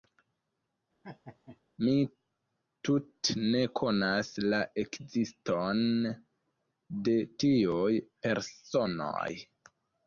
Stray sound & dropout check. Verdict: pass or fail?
fail